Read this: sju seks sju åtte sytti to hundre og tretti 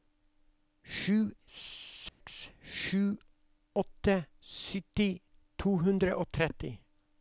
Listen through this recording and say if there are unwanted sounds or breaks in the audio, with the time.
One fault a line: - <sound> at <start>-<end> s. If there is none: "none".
- dropout at 2.1-2.2 s